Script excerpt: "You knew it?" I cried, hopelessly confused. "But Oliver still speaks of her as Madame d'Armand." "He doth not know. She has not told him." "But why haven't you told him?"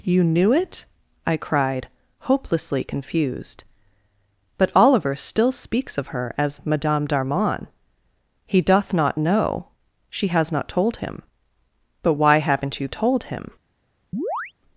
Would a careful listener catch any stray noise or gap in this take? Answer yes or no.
yes